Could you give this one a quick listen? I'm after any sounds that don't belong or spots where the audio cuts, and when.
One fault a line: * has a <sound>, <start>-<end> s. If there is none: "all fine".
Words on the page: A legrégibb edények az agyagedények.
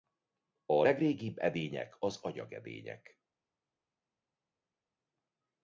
all fine